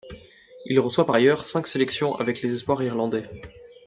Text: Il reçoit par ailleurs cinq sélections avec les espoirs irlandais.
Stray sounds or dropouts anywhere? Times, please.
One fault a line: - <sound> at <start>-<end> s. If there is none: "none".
none